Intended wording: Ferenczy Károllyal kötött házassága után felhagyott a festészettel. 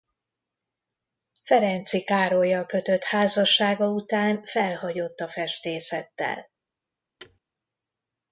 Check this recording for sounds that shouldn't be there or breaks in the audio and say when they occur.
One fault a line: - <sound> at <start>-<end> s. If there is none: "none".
- thud at 7.2-7.4 s